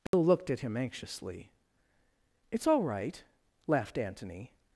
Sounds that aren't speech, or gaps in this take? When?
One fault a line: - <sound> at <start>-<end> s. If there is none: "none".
- dropout at 0.1-0.1 s